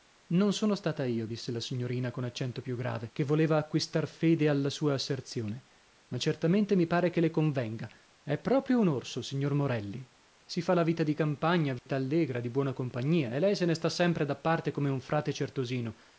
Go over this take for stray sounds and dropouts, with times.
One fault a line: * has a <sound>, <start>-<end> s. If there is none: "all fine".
* has a dropout, 11.8-11.9 s